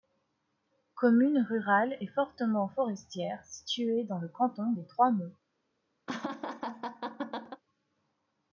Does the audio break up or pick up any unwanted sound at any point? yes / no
yes